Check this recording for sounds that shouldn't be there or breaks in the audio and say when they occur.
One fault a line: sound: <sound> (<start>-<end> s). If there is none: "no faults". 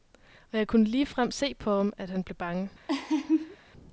sound: laugh (2.9-3.6 s)